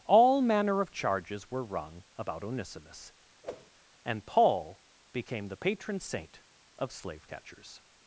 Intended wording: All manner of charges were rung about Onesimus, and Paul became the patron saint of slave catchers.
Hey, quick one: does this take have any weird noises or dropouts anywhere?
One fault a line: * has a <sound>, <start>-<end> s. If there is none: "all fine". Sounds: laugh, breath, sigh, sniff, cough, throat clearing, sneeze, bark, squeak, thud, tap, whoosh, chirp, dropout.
* has a whoosh, 3.4-3.7 s